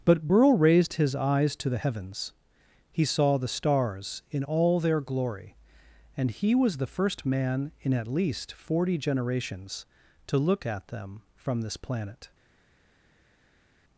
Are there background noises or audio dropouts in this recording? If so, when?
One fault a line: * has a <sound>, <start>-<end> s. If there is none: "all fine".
all fine